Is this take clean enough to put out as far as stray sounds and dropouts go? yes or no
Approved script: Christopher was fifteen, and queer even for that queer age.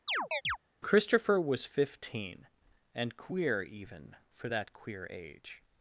no